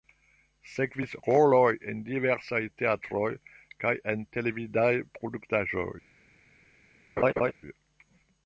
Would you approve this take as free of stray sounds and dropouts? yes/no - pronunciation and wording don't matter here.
no